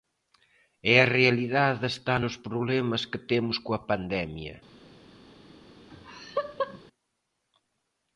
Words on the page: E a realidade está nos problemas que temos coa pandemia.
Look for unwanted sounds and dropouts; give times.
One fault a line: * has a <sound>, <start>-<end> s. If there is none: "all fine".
* has a laugh, 5.9-6.8 s